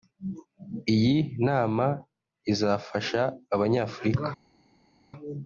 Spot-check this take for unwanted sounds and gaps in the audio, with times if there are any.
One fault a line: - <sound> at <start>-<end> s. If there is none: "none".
none